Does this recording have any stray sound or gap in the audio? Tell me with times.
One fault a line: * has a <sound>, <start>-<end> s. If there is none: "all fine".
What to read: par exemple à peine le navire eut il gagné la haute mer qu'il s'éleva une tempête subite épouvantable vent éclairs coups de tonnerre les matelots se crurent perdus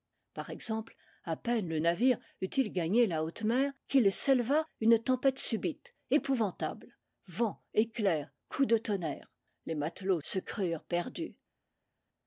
all fine